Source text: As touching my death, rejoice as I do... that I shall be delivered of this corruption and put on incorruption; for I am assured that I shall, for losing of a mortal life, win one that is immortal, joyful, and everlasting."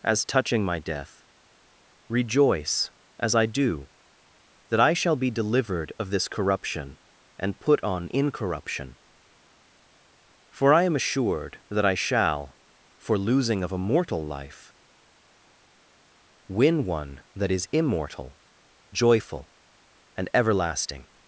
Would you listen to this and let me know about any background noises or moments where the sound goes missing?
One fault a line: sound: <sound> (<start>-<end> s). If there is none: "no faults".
no faults